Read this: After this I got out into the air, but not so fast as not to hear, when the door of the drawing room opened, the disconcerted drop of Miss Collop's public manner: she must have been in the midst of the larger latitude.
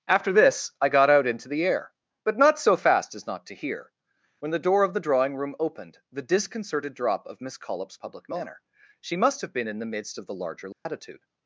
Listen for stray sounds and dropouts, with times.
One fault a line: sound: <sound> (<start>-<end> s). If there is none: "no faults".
sound: dropout (10.7-10.9 s)